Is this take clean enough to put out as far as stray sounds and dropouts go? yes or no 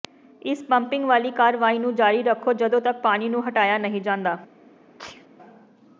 no